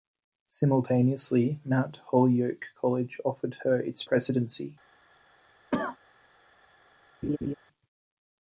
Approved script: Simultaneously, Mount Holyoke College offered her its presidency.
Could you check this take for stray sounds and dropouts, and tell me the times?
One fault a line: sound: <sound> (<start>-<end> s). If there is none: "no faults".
sound: cough (5.7-6.0 s)
sound: laugh (7.2-7.5 s)